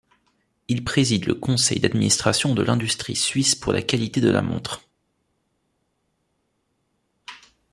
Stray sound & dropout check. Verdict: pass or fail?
pass